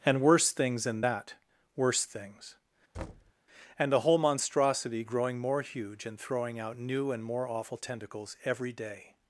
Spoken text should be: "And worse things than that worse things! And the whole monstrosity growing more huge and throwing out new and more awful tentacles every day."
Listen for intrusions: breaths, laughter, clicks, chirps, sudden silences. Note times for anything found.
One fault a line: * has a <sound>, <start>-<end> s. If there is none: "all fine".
* has a thud, 2.9-3.3 s